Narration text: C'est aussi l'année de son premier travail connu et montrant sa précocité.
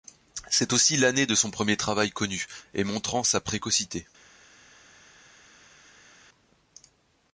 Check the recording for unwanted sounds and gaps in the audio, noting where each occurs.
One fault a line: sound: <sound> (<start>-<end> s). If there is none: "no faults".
no faults